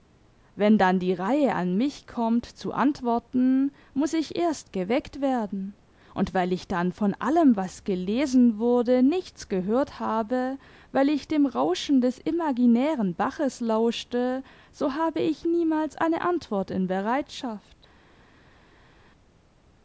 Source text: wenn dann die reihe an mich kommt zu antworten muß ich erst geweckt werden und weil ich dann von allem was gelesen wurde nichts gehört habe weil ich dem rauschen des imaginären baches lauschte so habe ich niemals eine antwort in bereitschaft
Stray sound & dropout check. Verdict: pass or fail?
pass